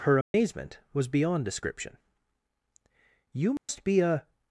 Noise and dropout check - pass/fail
fail